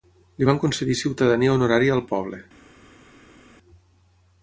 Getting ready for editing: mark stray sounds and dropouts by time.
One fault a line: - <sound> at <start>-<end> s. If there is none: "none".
none